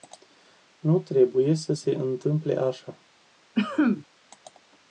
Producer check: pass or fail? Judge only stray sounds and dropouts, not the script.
fail